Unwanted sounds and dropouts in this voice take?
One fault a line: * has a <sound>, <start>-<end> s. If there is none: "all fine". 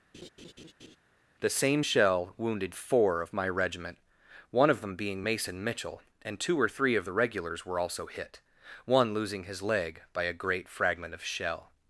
* has a laugh, 0.1-1.0 s